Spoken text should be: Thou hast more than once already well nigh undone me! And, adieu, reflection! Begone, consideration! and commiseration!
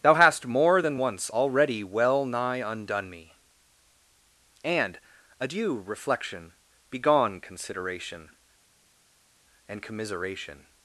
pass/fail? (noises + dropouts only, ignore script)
pass